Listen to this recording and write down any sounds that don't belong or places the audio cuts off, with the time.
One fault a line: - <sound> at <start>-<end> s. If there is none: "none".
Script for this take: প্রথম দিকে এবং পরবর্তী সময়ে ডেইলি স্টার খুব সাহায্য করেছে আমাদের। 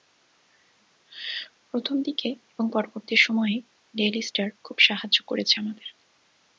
none